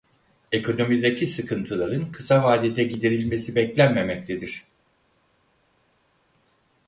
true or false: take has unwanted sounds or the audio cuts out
false